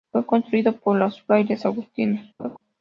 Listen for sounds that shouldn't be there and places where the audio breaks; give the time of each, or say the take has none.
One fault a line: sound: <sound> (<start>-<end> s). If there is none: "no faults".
sound: laugh (2.4-2.6 s)